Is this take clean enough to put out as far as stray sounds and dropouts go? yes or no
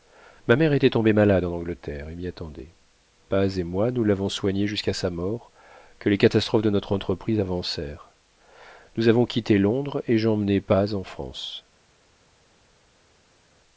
yes